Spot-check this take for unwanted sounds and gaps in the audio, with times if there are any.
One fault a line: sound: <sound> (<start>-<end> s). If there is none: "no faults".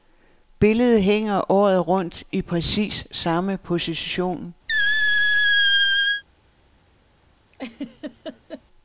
sound: squeak (4.7-6.2 s)
sound: laugh (7.5-8.6 s)